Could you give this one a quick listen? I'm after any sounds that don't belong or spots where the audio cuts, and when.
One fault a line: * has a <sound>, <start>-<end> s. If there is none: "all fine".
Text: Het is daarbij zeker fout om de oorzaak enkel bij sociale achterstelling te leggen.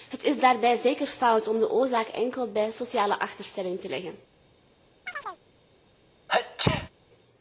* has a chirp, 5.1-5.4 s
* has a sneeze, 6.3-6.9 s